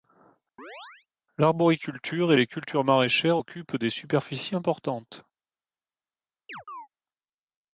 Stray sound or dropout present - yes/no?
yes